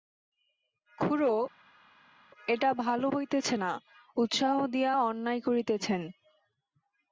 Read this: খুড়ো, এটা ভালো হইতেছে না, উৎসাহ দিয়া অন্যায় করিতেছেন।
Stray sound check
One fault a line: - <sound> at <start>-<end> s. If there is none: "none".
none